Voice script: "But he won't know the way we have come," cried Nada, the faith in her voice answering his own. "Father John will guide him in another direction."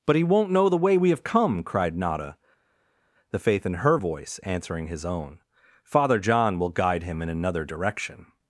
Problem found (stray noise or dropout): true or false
false